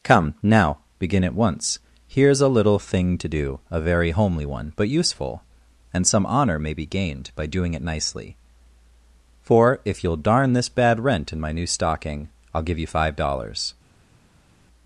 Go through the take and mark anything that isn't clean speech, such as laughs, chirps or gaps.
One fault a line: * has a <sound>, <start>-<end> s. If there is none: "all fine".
all fine